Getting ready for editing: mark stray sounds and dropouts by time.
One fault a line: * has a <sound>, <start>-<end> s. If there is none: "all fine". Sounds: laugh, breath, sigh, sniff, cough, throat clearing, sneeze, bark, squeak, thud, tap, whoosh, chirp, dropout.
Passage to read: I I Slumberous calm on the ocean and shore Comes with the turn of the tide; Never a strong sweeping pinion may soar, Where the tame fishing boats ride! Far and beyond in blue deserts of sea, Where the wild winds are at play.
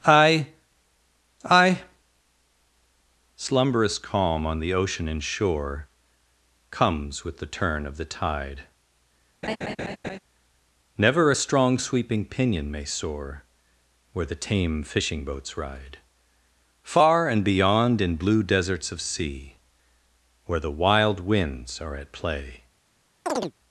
* has a laugh, 9.4-10.2 s
* has a chirp, 23.3-23.5 s